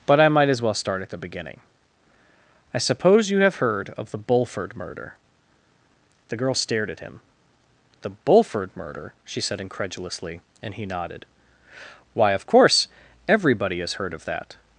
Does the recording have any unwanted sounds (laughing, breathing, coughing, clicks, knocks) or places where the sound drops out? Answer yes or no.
no